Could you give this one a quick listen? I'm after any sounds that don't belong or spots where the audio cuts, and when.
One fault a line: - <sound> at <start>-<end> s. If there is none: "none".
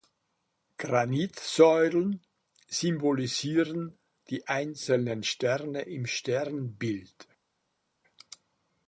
none